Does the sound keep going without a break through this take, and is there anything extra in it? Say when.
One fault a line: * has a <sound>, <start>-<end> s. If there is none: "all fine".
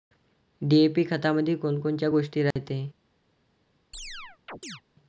* has a dropout, 2.5-2.6 s
* has a chirp, 3.9-4.8 s